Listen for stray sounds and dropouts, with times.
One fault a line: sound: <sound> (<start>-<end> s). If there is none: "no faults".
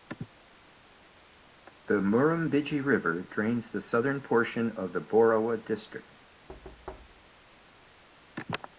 sound: thud (6.5-7.3 s)